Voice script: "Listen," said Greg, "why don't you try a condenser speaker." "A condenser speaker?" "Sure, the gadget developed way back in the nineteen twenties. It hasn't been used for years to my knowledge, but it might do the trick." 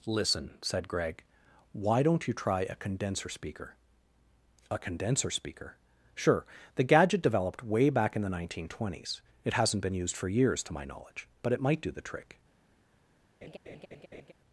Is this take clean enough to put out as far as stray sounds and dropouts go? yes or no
no